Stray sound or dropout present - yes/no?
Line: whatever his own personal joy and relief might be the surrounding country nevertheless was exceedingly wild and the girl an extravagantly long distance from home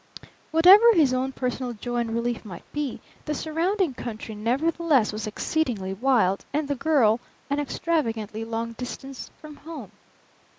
no